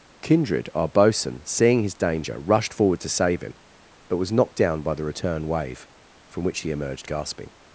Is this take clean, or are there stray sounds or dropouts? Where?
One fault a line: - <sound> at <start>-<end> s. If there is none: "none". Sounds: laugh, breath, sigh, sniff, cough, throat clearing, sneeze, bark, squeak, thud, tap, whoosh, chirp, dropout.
none